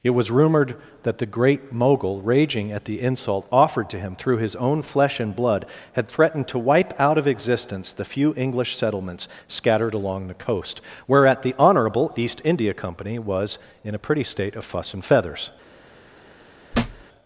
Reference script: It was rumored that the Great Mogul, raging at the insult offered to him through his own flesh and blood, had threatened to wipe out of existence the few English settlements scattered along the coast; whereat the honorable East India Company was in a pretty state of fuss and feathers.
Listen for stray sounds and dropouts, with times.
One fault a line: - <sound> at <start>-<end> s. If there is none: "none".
- thud at 16.7-17.0 s